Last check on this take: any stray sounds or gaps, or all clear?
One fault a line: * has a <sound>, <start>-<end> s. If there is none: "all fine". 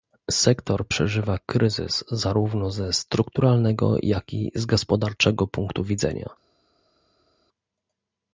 all fine